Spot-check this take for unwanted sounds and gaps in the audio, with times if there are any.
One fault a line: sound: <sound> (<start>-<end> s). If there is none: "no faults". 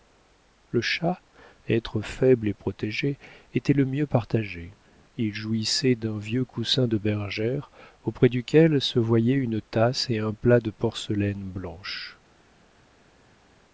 no faults